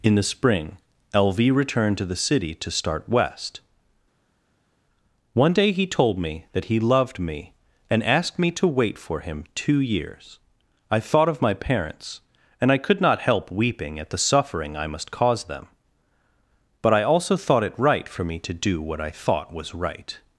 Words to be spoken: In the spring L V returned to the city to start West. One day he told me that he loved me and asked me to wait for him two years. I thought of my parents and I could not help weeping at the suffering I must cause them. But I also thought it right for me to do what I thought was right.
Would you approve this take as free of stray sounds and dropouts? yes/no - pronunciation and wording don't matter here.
yes